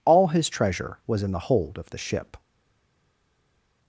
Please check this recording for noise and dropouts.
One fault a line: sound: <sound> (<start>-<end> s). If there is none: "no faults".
no faults